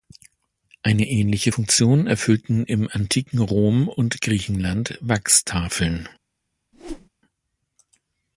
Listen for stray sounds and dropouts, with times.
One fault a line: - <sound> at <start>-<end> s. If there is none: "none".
- whoosh at 6.7-7.1 s